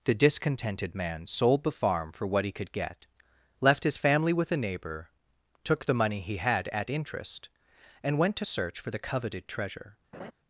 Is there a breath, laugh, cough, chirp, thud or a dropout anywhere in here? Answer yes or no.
yes